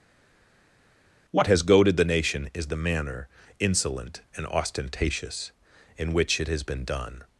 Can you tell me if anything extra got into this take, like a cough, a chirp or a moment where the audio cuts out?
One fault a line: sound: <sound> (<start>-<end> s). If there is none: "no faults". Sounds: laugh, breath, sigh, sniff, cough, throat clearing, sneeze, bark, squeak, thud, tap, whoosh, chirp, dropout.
no faults